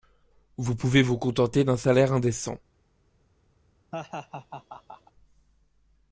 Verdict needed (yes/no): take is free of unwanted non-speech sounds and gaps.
no